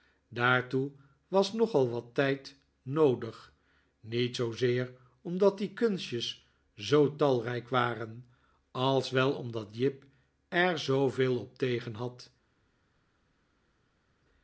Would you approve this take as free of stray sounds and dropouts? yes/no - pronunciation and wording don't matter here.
yes